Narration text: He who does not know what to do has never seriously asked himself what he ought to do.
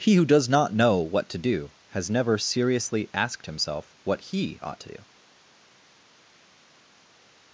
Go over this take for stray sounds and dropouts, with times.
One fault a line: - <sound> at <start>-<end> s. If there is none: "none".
none